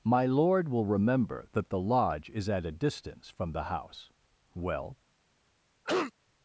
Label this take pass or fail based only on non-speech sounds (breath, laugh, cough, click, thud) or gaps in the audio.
fail